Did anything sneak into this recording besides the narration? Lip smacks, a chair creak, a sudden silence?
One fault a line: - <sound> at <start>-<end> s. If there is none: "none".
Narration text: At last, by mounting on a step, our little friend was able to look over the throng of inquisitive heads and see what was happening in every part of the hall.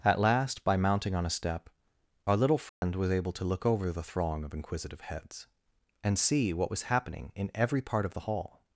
- dropout at 2.7-2.8 s